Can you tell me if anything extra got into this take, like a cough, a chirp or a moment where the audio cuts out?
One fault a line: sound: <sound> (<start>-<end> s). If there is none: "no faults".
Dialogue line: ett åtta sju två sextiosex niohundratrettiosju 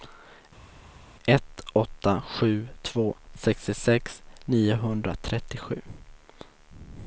no faults